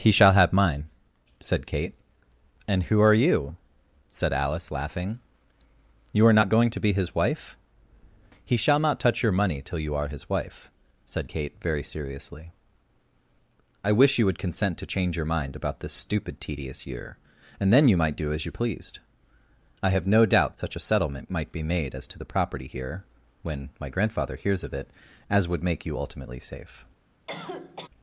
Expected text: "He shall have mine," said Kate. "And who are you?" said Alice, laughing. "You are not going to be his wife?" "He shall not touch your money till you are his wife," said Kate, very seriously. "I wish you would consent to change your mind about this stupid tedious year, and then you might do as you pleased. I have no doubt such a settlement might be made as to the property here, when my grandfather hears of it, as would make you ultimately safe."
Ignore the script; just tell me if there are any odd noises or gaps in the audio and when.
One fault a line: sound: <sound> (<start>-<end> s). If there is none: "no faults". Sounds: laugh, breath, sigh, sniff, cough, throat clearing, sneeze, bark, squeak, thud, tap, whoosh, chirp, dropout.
sound: cough (27.3-27.9 s)